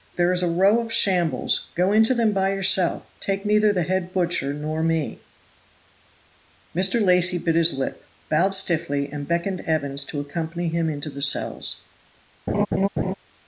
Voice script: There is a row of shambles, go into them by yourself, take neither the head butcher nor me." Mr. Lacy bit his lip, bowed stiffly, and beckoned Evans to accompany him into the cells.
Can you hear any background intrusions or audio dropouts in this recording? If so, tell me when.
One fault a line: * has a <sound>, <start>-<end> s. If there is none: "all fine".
* has a laugh, 12.5-13.1 s